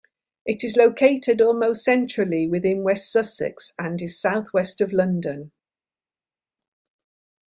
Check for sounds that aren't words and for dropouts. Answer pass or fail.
pass